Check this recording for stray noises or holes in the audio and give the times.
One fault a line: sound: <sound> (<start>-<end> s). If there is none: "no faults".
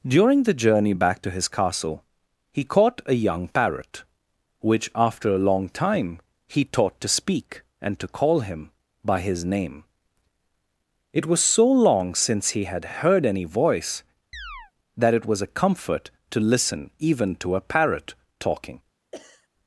sound: chirp (14.3-14.7 s)
sound: sneeze (19.1-19.5 s)